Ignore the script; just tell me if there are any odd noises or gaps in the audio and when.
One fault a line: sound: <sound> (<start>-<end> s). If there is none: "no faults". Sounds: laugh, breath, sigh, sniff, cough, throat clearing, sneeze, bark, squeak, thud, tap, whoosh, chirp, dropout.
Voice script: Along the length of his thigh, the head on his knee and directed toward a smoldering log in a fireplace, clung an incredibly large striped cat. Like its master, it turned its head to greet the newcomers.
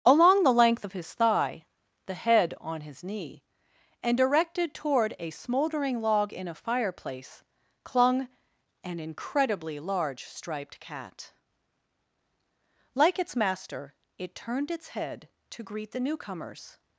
no faults